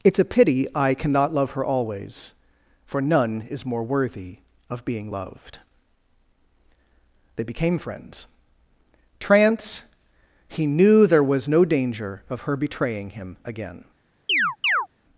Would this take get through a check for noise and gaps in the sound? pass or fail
fail